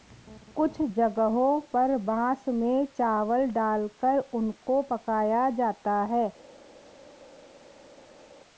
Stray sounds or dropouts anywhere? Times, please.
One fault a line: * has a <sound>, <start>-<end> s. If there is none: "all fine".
all fine